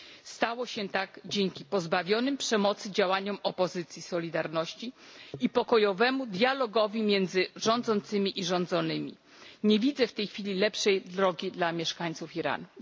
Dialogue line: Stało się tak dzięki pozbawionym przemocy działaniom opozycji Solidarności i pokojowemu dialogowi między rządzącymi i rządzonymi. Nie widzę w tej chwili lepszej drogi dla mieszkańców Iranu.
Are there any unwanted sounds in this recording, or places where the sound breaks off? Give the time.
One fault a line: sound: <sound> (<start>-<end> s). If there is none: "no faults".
no faults